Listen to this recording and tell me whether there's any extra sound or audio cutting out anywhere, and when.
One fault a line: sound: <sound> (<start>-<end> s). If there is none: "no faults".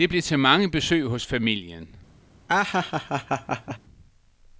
sound: laugh (2.5-3.8 s)